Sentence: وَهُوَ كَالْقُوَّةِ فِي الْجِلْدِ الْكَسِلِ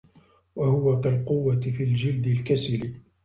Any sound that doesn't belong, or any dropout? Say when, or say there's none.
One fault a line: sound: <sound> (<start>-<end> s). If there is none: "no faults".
no faults